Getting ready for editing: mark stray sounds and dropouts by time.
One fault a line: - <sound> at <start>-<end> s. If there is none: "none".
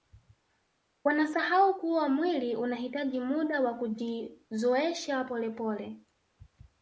none